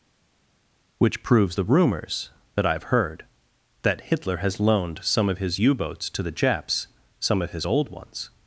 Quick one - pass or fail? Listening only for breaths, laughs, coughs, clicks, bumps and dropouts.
pass